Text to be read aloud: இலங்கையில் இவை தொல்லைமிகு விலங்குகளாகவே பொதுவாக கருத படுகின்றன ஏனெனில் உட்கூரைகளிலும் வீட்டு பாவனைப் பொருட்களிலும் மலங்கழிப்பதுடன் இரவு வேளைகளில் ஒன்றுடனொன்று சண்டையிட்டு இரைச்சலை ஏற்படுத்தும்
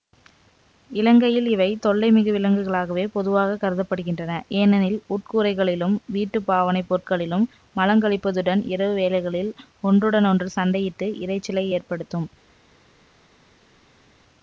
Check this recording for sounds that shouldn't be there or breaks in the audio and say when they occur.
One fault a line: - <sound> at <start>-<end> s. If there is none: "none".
none